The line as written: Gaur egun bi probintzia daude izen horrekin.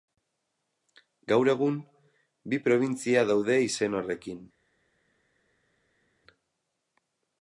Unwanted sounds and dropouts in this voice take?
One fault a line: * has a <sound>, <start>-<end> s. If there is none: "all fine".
all fine